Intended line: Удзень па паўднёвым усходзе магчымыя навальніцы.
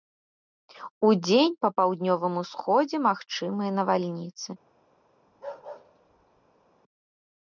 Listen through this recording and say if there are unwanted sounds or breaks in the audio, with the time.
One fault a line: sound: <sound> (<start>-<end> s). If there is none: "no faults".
sound: bark (5.3-6.7 s)